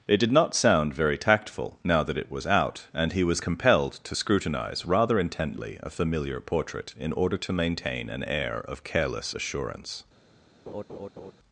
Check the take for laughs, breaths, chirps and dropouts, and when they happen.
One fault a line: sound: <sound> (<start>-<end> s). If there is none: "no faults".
sound: laugh (10.7-11.3 s)